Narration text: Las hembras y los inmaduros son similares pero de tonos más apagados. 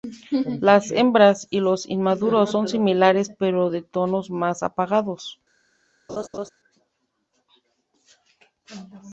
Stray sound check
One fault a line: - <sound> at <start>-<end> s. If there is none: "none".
- laugh at 6.1-6.5 s